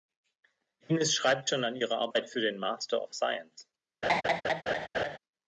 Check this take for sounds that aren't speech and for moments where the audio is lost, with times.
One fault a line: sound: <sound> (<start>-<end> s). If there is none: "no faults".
sound: laugh (4.0-5.2 s)